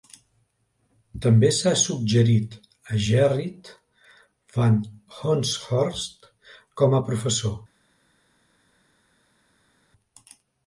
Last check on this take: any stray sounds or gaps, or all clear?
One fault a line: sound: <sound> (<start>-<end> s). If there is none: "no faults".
no faults